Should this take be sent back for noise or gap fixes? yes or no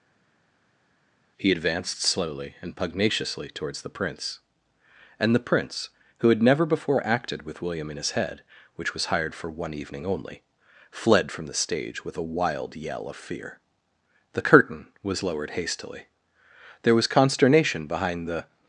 no